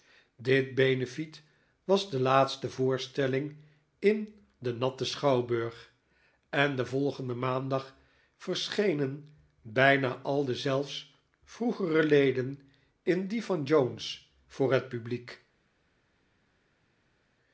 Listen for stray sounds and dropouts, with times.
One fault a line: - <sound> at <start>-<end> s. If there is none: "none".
none